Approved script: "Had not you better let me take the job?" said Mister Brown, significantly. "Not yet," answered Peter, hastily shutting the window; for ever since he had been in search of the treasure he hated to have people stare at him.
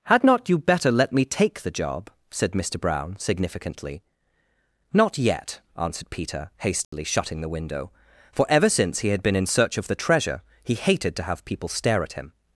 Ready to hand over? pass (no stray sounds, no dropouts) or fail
fail